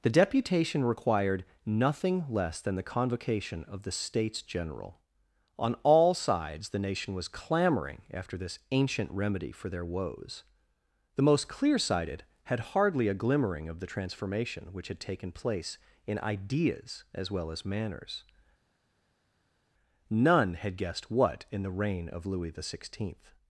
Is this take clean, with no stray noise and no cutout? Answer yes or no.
yes